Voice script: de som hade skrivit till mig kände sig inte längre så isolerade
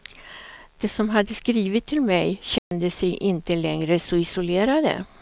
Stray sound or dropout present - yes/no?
yes